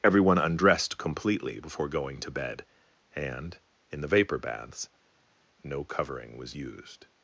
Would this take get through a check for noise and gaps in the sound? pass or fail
pass